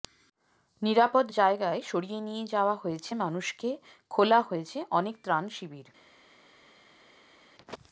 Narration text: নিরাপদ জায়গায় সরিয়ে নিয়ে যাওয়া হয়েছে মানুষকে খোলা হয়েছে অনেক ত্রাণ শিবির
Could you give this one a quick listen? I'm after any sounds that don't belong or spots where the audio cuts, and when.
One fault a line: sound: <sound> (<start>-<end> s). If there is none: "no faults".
no faults